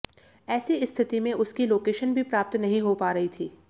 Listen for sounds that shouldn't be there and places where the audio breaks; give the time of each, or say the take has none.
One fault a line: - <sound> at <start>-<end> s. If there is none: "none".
none